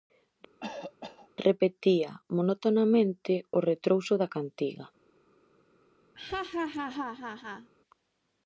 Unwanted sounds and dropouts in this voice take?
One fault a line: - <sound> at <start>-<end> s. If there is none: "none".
- cough at 0.6-1.3 s
- laugh at 6.2-7.7 s